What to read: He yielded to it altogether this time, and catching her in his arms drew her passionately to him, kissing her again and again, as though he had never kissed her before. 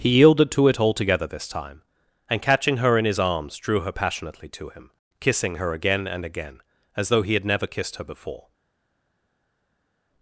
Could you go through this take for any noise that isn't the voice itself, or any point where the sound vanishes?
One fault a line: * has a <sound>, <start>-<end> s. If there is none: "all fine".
all fine